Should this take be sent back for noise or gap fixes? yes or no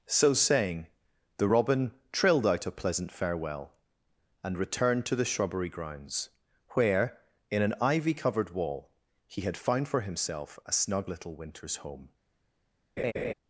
yes